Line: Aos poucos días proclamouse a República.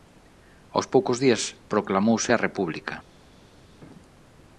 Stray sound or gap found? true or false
false